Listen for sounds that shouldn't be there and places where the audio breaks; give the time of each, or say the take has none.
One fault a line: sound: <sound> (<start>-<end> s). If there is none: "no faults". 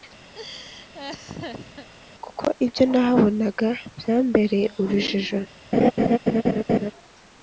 sound: laugh (0.3-1.9 s)
sound: laugh (5.7-6.9 s)